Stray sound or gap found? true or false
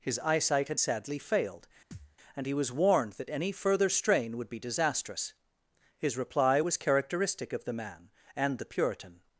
true